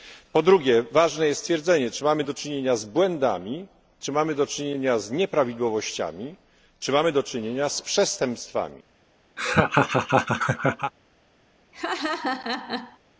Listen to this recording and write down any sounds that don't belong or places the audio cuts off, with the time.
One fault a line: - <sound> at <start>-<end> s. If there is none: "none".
- laugh at 9.4-10.9 s
- laugh at 11.7-13.0 s